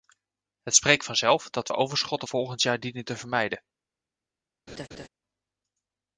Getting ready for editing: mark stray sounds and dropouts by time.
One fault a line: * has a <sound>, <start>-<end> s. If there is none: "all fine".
* has a laugh, 4.7-5.1 s